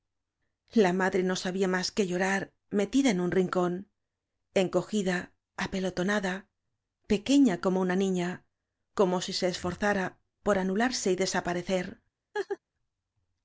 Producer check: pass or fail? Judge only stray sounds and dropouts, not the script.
fail